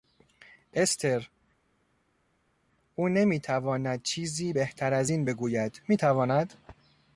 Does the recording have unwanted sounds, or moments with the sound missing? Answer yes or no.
no